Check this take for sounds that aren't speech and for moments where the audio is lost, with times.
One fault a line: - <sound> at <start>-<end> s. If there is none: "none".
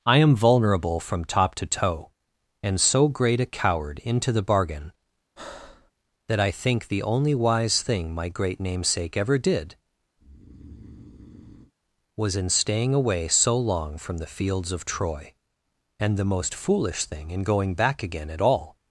- breath at 5.4-5.9 s
- breath at 10.2-11.7 s